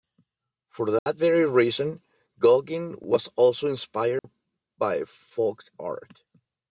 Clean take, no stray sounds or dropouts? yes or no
no